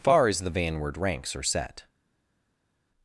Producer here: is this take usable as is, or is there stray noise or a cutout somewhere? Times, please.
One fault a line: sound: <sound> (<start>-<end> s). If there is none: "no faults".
no faults